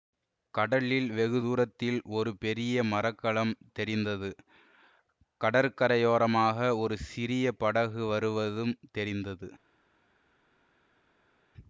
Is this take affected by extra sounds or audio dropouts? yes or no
no